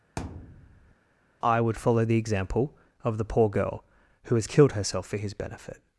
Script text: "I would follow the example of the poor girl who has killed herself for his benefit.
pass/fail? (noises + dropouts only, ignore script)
fail